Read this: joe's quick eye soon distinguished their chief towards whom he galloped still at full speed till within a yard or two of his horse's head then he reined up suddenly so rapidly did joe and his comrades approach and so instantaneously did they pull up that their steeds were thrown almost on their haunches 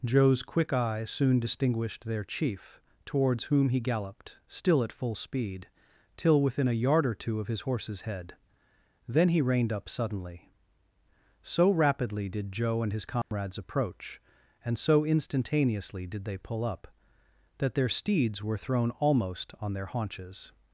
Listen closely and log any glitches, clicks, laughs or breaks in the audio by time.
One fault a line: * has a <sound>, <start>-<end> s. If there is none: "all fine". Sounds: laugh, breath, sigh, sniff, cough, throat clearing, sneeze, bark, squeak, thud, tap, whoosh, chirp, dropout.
* has a dropout, 13.2-13.3 s